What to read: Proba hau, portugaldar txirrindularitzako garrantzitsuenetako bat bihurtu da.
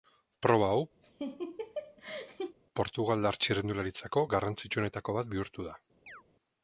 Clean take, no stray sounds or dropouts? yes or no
no